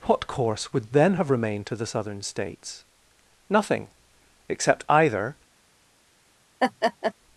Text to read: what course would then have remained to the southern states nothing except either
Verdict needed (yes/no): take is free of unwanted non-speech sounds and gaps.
no